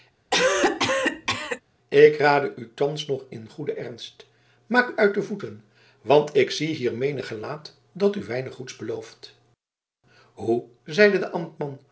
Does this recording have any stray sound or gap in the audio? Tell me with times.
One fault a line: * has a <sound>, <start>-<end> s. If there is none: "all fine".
* has a cough, 0.3-1.6 s